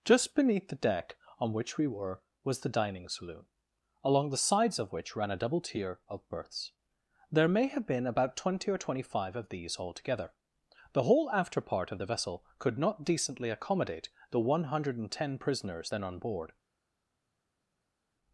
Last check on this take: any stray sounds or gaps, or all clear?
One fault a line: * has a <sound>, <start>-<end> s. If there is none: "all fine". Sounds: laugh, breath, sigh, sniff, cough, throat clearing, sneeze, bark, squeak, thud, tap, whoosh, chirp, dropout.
all fine